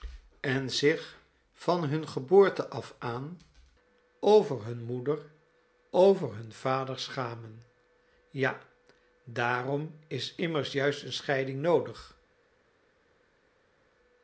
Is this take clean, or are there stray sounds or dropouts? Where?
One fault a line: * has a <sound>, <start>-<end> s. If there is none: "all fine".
all fine